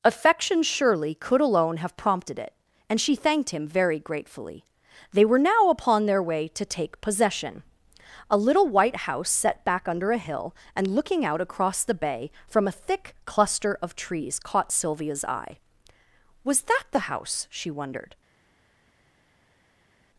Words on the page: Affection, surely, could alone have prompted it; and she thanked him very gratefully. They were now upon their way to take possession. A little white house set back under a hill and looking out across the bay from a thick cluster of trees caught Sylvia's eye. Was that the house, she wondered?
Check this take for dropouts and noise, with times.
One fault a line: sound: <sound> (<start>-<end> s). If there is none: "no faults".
no faults